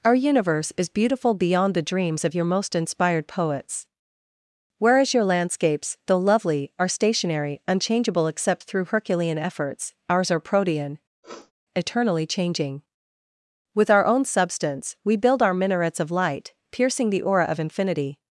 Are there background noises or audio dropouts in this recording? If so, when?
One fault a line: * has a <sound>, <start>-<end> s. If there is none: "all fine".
* has a sniff, 11.2-11.5 s